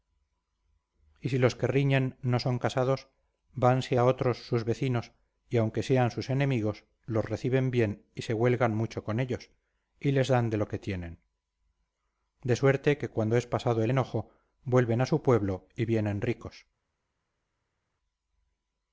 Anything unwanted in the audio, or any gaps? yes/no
no